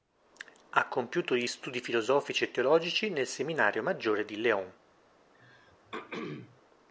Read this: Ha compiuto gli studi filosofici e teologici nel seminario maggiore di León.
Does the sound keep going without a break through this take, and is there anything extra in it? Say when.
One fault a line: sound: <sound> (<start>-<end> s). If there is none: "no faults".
sound: throat clearing (5.3-6.6 s)